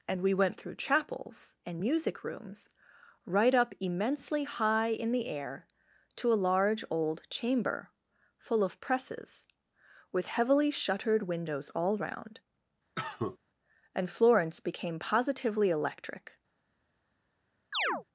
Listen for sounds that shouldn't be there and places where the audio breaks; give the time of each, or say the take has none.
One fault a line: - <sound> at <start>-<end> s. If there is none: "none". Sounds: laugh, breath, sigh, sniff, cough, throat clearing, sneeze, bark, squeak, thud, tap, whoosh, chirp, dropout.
- cough at 13.0-13.4 s
- chirp at 17.7-18.0 s